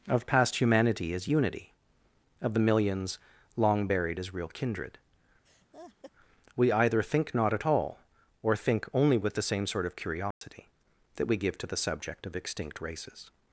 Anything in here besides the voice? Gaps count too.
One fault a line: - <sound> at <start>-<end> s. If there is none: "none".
- laugh at 5.4-6.1 s
- dropout at 10.3-10.4 s